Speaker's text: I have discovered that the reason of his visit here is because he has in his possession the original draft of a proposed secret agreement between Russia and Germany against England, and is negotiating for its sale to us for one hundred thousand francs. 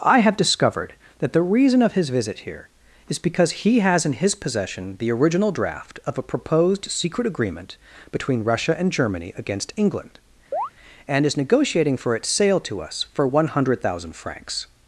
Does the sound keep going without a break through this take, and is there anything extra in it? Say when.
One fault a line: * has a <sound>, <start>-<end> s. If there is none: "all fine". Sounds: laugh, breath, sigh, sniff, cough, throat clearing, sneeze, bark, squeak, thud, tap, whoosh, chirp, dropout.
* has a chirp, 10.5-10.7 s